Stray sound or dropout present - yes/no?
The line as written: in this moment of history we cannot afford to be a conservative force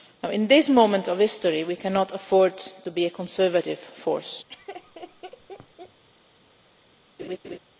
yes